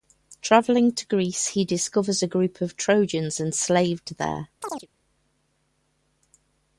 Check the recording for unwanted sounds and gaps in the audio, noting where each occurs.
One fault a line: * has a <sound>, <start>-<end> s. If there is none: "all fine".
* has a chirp, 4.6-4.9 s